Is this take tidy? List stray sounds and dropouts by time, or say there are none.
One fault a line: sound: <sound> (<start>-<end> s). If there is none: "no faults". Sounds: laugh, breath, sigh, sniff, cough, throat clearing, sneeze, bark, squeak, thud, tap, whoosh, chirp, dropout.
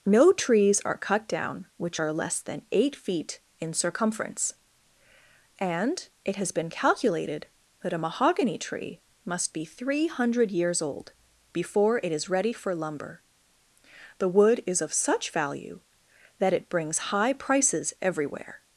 no faults